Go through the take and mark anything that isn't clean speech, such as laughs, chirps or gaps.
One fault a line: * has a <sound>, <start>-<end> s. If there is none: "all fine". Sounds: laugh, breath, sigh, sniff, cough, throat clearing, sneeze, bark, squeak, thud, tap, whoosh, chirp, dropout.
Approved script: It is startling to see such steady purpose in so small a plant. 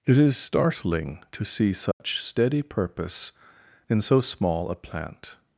* has a dropout, 1.9-2.0 s